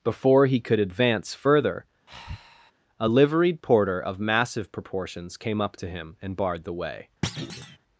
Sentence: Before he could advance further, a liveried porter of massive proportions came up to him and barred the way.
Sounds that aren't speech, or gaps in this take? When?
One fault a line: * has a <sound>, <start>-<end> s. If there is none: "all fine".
* has a breath, 2.1-2.7 s
* has a thud, 7.2-7.8 s